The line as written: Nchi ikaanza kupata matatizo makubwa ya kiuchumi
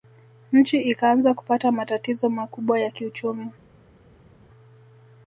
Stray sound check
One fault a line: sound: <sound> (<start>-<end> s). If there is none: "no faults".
no faults